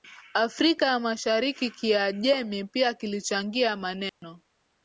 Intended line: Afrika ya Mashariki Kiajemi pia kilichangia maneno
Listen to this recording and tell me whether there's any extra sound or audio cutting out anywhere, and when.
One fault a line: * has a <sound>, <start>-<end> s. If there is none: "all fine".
* has a dropout, 4.1-4.2 s